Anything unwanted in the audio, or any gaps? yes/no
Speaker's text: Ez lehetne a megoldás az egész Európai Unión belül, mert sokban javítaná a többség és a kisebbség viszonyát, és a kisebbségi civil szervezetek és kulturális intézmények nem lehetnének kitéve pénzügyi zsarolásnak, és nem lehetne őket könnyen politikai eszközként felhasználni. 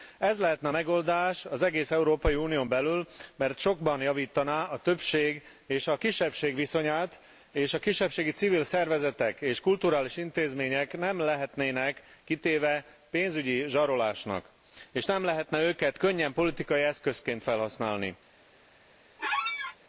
yes